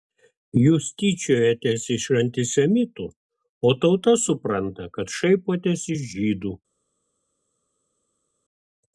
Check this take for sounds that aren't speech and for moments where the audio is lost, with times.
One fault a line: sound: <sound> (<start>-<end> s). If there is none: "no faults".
no faults